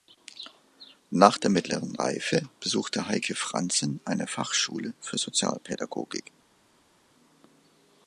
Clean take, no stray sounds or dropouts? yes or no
yes